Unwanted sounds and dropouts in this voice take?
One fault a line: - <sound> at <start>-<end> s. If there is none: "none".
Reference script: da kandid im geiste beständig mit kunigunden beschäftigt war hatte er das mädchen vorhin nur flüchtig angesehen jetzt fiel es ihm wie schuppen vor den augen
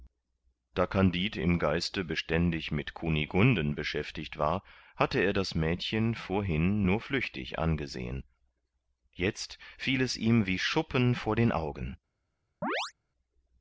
- chirp at 12.6-12.9 s